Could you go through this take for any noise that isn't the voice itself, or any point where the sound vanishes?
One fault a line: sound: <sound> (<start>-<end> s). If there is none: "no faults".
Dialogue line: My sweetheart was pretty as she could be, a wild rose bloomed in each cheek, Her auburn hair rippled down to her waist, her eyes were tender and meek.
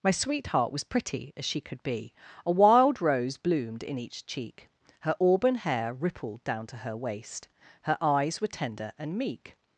no faults